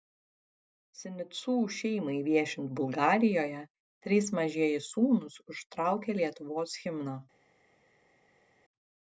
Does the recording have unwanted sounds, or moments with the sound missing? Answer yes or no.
no